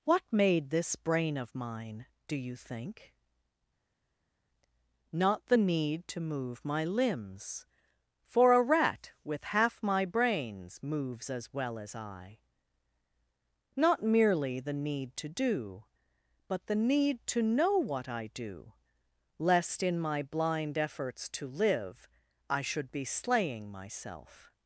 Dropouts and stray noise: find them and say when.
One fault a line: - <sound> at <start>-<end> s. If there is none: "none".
none